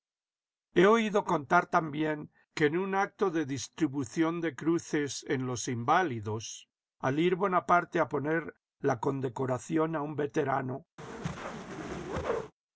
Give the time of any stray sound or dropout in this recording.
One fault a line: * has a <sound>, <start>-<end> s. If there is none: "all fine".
* has a whoosh, 11.0-12.5 s